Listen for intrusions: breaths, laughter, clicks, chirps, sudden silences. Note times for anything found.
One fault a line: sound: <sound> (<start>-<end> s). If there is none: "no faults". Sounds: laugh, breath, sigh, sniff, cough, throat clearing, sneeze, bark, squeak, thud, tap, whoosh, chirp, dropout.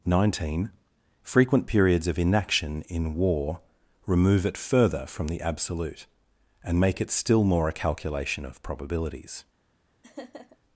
sound: laugh (10.0-10.6 s)